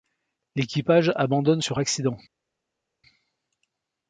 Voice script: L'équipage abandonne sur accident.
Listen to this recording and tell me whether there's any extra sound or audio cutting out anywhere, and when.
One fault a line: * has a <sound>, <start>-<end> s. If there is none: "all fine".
all fine